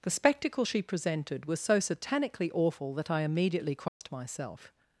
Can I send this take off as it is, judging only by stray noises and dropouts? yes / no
no